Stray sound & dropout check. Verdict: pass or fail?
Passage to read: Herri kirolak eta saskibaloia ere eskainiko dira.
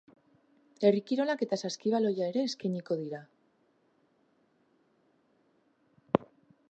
pass